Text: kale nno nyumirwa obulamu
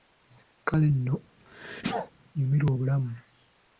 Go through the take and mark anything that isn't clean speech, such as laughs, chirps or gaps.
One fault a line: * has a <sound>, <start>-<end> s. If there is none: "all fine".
* has a sneeze, 1.4-2.1 s